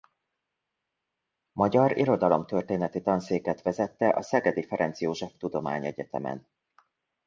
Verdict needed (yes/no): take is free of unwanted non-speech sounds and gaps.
yes